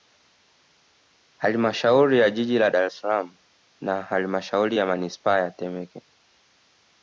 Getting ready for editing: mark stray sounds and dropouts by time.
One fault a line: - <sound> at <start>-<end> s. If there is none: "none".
none